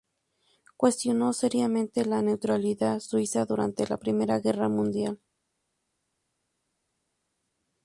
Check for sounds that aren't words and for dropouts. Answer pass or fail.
pass